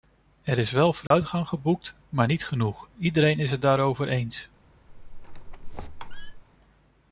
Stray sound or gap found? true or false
true